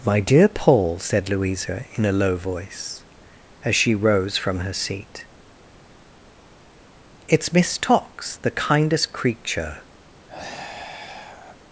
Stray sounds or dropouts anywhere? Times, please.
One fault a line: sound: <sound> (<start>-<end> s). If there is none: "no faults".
sound: sigh (10.3-11.6 s)